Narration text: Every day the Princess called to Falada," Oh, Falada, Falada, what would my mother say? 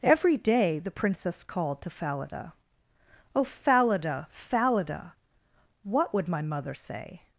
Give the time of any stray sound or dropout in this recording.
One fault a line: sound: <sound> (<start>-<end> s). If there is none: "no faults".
no faults